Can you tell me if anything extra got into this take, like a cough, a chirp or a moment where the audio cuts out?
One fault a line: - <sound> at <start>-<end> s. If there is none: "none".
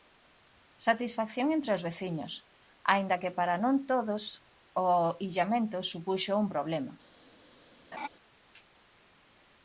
- laugh at 7.9-8.1 s